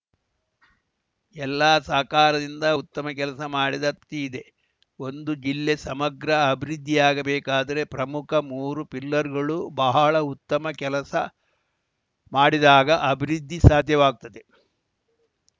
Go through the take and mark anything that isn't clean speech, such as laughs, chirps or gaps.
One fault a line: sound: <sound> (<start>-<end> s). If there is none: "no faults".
no faults